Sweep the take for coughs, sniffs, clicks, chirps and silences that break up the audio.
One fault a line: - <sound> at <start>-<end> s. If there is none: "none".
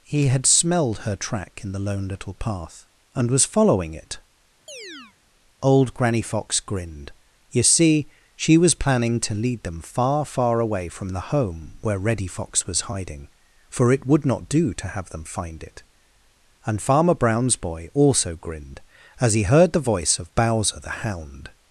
- chirp at 4.7-5.2 s